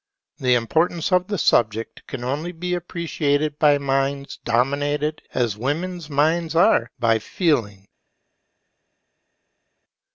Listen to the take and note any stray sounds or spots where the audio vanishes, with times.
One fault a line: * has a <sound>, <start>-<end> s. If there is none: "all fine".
all fine